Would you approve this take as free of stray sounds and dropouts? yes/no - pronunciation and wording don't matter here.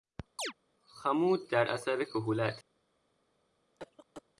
no